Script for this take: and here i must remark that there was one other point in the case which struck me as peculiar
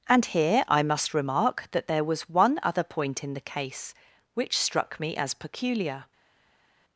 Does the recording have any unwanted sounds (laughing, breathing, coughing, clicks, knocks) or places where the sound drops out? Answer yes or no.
no